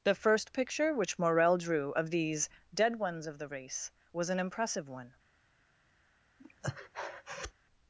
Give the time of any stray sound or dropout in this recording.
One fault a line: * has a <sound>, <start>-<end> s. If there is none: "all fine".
* has a breath, 6.4-7.5 s